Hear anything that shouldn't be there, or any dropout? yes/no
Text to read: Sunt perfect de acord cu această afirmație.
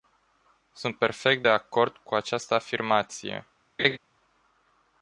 yes